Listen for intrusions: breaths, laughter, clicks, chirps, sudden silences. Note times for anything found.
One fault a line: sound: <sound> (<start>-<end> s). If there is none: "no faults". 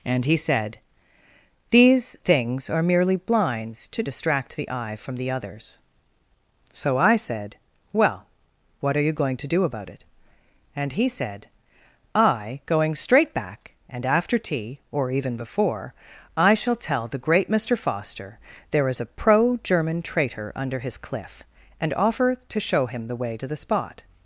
no faults